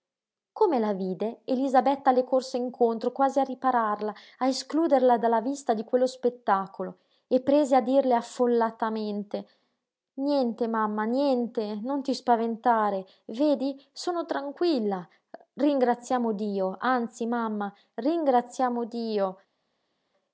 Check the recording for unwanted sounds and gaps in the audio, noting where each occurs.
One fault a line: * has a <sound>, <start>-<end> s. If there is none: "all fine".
all fine